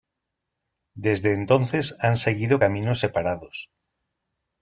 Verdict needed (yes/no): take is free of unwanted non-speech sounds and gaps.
yes